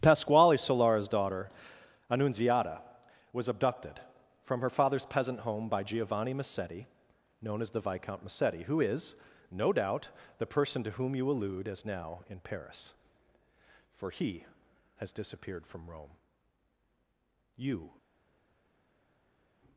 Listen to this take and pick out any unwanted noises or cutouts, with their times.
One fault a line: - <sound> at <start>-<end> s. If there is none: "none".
none